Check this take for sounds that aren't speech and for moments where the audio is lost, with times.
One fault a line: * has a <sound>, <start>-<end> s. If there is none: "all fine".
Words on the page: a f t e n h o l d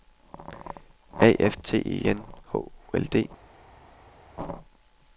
all fine